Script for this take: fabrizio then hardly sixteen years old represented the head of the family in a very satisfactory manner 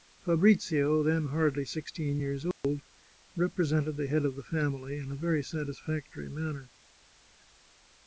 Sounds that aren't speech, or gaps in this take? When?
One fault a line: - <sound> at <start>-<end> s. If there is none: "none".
- dropout at 2.5-2.6 s